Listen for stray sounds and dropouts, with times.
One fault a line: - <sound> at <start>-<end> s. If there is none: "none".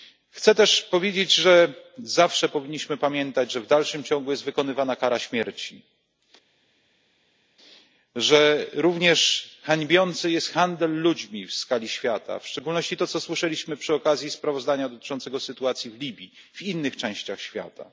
none